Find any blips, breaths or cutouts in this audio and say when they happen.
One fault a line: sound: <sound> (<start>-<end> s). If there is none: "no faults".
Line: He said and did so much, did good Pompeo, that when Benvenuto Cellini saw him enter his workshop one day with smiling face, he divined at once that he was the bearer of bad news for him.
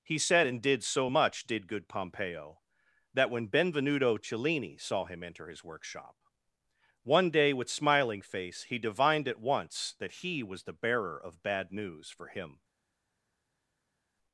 no faults